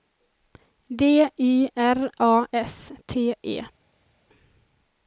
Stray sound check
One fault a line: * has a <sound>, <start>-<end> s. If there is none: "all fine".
all fine